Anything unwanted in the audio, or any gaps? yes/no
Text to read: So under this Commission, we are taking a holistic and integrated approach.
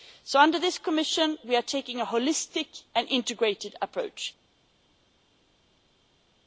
no